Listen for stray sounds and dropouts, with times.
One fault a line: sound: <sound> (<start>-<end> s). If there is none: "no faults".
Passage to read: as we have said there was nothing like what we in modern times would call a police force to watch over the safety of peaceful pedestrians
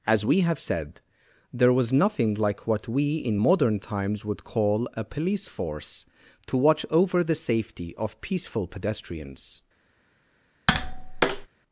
sound: tap (10.7-11.5 s)